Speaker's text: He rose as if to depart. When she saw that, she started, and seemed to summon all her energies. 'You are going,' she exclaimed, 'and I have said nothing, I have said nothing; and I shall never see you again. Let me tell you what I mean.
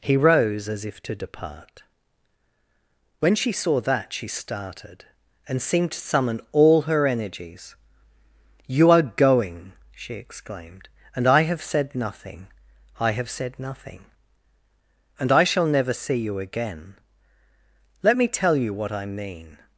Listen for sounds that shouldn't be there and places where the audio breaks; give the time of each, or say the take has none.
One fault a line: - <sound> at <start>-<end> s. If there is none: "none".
none